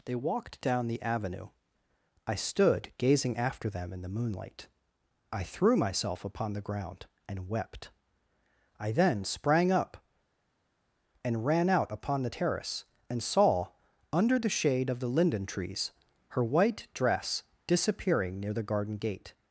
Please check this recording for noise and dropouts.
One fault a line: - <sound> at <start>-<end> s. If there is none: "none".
none